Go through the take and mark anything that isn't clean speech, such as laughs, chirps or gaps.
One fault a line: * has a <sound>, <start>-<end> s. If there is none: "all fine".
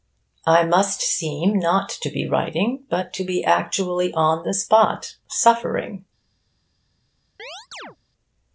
* has a chirp, 7.4-8.0 s